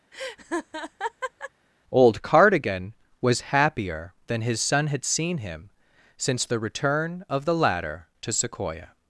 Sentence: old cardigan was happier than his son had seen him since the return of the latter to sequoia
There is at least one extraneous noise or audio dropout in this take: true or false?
true